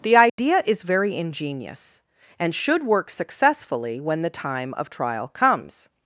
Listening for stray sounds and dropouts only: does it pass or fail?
fail